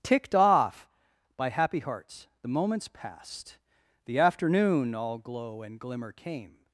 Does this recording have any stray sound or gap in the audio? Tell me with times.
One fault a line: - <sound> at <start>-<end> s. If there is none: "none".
none